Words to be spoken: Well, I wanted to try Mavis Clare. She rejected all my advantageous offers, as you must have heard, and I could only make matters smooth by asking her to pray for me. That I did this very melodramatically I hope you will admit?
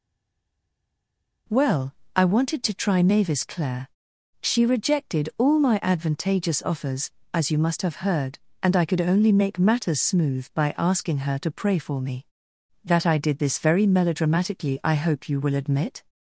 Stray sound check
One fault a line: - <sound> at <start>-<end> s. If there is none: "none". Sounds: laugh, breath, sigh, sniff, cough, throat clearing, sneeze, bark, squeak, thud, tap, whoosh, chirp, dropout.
none